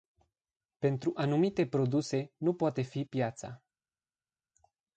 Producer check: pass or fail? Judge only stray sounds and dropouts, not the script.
pass